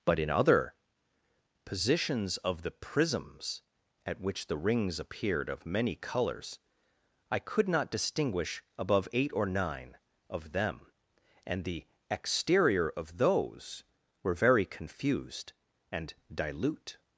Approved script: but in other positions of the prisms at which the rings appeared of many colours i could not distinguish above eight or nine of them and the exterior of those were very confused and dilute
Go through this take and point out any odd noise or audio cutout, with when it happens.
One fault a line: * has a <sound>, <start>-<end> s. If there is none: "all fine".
all fine